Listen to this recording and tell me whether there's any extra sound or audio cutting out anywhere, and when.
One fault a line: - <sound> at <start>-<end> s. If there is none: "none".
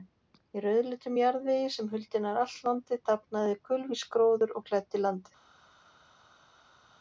none